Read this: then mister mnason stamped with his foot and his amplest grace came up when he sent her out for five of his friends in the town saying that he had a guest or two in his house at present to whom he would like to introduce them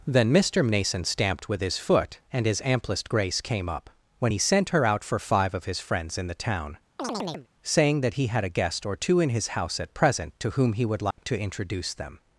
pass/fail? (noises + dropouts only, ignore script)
fail